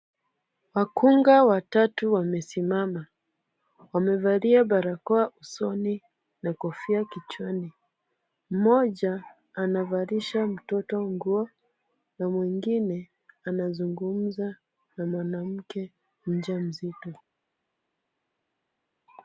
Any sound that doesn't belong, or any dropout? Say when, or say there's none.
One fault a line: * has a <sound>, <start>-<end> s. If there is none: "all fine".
all fine